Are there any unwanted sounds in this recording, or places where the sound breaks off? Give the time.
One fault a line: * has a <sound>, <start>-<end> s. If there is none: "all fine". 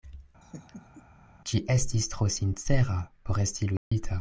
* has a laugh, 0.4-1.0 s
* has a dropout, 3.8-3.9 s